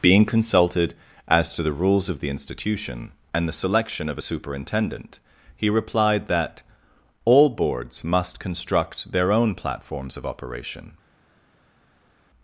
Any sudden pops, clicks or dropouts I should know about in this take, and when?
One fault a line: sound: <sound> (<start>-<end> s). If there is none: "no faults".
no faults